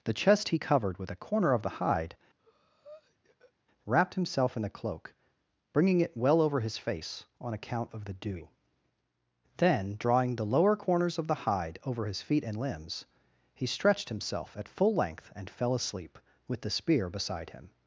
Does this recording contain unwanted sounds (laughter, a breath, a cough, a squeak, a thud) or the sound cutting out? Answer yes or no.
yes